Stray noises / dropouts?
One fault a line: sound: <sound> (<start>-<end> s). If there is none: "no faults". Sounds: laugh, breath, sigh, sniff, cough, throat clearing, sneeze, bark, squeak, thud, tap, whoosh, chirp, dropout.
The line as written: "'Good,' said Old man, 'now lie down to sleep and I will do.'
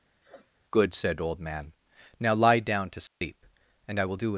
sound: sniff (0.2-0.5 s)
sound: dropout (3.1-3.2 s)